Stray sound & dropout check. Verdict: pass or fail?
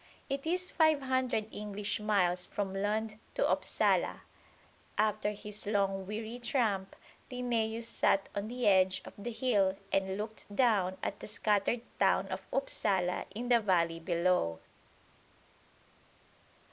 pass